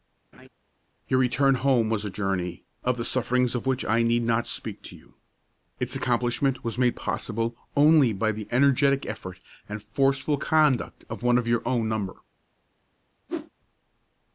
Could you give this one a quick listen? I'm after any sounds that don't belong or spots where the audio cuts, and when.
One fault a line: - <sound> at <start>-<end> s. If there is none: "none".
- laugh at 0.3-0.5 s
- whoosh at 13.3-13.5 s